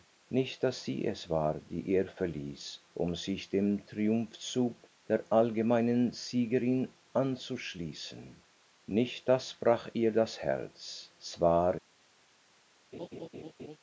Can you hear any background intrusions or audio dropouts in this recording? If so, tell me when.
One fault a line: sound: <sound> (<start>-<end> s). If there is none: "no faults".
sound: laugh (12.9-13.8 s)